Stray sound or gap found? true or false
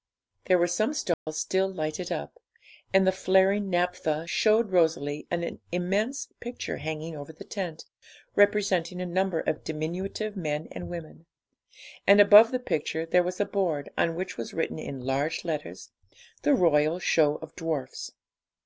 true